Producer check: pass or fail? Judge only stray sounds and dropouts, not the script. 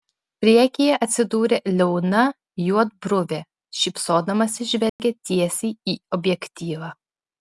fail